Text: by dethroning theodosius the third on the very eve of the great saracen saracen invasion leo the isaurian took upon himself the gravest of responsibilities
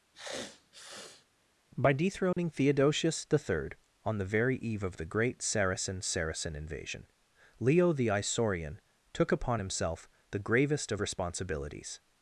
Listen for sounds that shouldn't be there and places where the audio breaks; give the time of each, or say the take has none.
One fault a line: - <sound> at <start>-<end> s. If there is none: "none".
- sniff at 0.1-1.3 s
- dropout at 2.3-2.4 s